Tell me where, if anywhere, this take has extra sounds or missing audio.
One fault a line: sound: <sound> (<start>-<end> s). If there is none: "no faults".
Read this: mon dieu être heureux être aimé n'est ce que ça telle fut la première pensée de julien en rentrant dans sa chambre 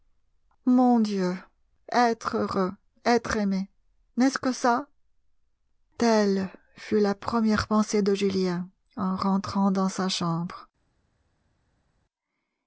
no faults